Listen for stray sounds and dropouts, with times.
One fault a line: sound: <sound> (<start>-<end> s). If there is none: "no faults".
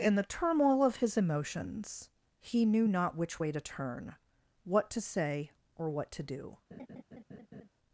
sound: laugh (6.7-7.7 s)